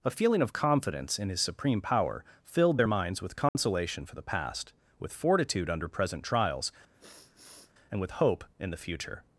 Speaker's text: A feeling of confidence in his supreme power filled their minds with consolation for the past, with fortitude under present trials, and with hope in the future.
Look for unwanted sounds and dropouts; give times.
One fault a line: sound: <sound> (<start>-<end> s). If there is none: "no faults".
sound: dropout (3.5-3.5 s)
sound: sniff (6.9-7.7 s)